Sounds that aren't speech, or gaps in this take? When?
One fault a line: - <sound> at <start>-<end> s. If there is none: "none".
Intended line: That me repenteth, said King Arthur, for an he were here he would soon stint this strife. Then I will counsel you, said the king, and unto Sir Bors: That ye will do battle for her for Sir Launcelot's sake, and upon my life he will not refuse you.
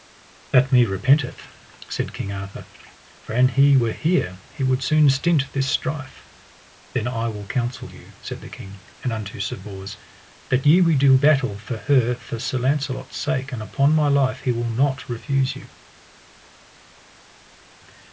none